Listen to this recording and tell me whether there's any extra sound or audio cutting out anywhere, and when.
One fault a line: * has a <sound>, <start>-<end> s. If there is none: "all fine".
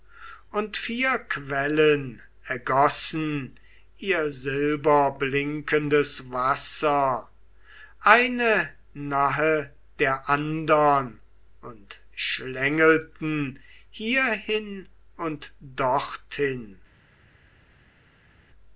all fine